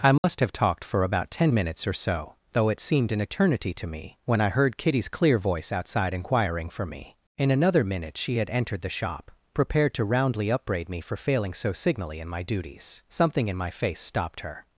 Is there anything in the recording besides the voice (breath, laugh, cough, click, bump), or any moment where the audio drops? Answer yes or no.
yes